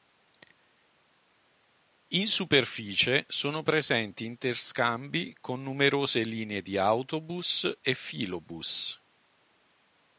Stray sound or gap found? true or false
false